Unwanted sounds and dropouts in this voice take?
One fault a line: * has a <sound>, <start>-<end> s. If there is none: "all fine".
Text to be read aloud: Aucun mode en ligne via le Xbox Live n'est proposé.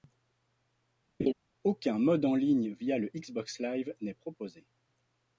* has a laugh, 1.2-1.3 s